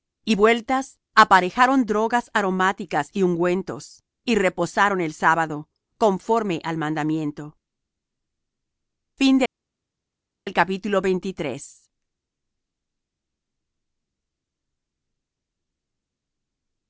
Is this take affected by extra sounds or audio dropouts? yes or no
no